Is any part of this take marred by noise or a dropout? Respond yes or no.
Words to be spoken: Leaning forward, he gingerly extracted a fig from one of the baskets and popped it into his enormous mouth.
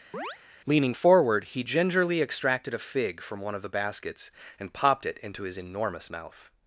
yes